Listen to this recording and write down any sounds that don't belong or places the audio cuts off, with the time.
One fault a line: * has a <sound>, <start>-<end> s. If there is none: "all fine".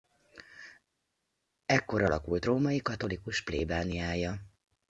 all fine